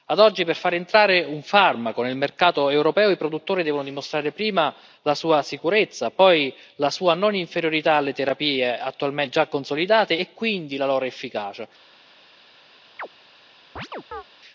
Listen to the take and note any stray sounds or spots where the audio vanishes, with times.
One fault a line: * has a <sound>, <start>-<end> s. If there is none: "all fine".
* has a chirp, 13.0-13.1 s
* has a chirp, 13.8-14.2 s